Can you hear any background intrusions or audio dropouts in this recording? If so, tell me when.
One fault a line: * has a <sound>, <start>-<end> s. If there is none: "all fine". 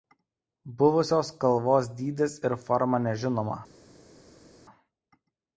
all fine